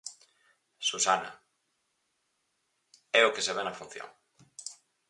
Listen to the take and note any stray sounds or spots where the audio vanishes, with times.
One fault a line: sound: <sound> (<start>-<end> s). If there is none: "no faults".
no faults